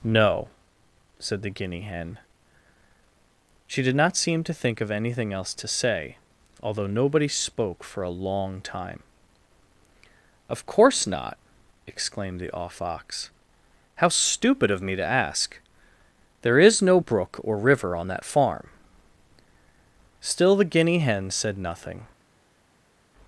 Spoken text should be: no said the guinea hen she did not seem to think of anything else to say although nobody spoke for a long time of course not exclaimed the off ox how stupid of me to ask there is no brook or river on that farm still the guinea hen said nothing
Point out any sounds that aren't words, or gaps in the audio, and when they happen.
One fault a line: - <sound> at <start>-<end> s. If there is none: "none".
none